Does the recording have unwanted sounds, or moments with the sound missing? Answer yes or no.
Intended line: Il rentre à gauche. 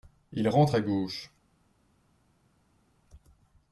no